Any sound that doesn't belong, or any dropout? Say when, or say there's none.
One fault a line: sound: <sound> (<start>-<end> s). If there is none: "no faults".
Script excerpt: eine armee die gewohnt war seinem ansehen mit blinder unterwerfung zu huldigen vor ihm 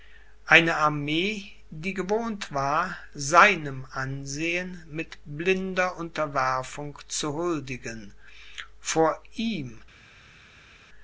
no faults